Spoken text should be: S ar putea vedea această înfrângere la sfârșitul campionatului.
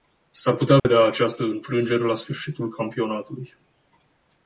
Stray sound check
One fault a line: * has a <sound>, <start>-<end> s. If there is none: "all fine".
* has a dropout, 0.8-0.9 s